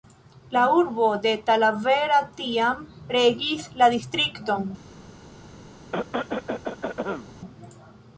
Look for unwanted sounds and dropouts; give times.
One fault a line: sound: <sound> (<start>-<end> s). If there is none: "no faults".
sound: cough (5.9-7.3 s)